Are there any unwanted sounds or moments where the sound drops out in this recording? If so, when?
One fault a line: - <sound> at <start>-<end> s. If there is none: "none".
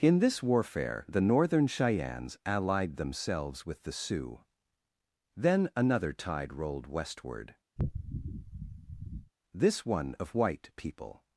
- sniff at 7.8-9.3 s